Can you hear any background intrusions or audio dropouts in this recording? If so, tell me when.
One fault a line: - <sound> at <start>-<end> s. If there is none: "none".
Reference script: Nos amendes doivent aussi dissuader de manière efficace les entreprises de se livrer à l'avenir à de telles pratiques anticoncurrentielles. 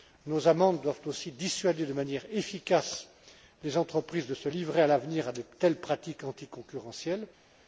none